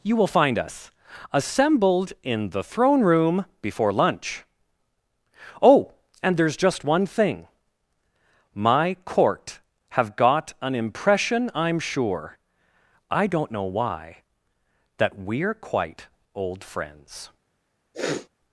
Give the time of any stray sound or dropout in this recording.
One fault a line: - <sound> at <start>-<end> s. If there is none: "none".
- sniff at 17.9-18.3 s